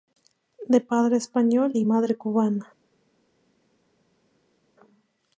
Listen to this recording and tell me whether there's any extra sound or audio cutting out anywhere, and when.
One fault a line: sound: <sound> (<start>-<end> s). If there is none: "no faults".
no faults